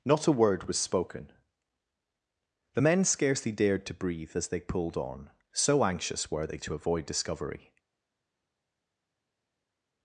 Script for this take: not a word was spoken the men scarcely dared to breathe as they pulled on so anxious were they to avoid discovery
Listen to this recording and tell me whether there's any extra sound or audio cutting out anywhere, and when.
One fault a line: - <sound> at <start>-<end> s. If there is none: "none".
none